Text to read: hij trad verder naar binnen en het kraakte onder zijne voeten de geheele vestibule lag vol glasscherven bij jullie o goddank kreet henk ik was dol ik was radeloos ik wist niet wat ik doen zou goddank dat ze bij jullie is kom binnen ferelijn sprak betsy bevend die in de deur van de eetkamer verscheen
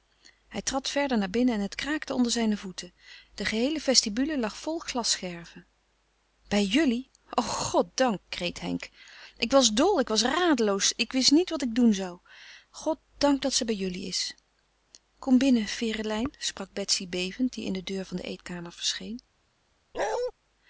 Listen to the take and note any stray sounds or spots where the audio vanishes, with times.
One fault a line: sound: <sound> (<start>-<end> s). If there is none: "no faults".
sound: bark (19.9-20.3 s)